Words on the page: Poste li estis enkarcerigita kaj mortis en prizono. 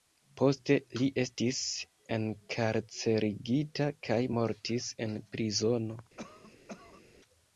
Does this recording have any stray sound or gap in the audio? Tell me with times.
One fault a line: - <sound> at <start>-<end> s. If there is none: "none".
- cough at 6.2-7.0 s